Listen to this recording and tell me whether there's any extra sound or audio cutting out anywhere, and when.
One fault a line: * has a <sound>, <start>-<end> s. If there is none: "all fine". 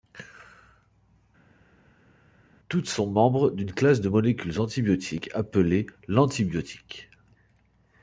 all fine